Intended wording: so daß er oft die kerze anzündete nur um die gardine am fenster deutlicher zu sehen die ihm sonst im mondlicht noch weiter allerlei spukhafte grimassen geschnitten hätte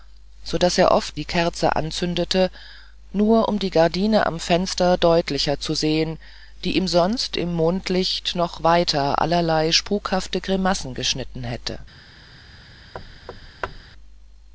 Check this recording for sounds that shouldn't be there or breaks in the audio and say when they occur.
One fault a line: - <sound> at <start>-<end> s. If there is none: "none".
- thud at 12.9-13.8 s